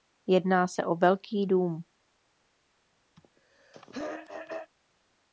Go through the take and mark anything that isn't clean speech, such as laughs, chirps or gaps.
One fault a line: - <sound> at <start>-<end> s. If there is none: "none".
- throat clearing at 3.2-4.7 s